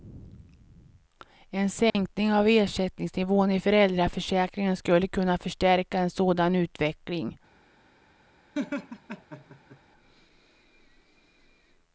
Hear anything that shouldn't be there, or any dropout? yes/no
yes